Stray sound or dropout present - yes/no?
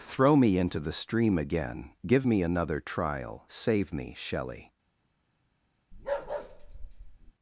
yes